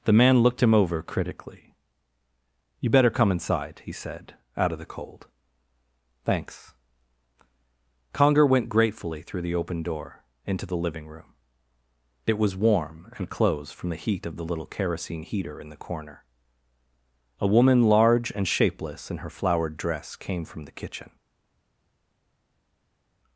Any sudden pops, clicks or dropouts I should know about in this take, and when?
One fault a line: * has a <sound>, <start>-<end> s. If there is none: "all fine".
all fine